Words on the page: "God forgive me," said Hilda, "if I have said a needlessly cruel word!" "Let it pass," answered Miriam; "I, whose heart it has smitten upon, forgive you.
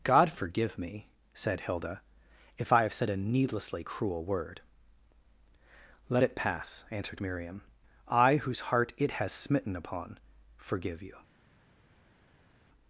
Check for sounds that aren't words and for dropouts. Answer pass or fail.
pass